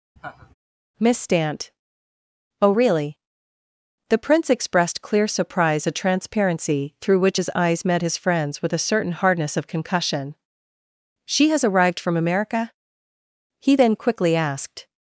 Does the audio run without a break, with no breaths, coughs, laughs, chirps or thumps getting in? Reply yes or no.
no